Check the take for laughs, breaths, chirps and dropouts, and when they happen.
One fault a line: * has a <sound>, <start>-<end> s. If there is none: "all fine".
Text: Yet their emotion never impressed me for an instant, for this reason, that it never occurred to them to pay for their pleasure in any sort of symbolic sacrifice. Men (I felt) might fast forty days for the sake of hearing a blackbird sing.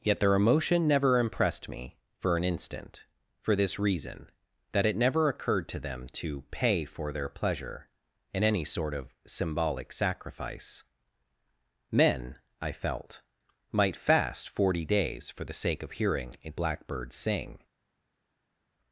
all fine